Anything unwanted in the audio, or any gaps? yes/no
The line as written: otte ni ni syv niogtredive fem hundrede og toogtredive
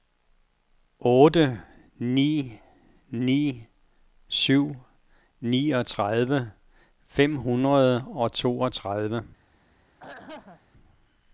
yes